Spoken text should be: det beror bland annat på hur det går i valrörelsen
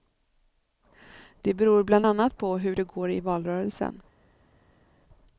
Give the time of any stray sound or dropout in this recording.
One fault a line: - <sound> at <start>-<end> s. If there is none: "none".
none